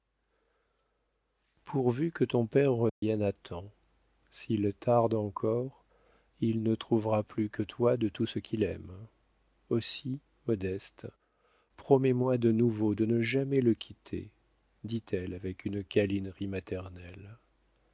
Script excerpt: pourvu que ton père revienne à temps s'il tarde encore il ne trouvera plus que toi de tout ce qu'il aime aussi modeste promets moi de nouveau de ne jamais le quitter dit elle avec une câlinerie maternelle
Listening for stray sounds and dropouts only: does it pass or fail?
fail